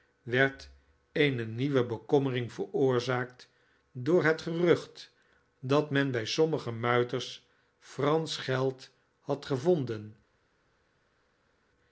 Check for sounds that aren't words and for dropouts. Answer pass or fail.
pass